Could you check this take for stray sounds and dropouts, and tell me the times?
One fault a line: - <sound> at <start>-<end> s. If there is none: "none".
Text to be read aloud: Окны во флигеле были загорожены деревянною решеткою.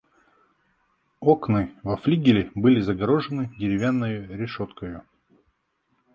none